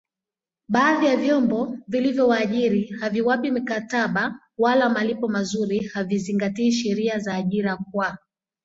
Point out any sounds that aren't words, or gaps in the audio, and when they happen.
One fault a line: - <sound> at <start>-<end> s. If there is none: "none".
none